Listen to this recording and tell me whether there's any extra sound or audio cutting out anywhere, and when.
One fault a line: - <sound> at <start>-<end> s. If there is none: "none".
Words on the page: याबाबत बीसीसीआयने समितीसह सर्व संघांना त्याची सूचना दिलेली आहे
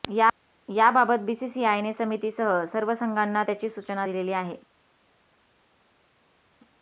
none